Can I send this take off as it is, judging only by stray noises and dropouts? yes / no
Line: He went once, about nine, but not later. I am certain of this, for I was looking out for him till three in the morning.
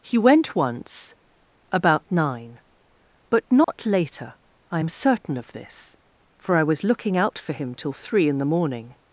no